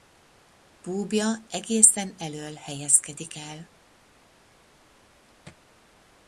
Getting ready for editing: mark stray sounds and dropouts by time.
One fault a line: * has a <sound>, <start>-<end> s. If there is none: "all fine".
all fine